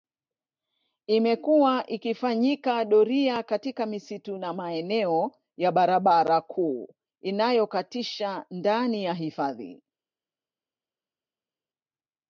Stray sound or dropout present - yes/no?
no